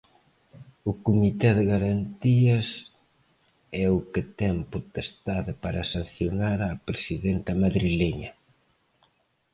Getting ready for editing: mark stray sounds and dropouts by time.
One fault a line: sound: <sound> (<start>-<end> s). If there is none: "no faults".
no faults